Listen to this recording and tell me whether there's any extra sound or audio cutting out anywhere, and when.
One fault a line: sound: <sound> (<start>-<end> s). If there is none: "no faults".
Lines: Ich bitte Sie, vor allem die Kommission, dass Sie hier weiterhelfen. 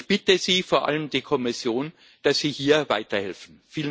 no faults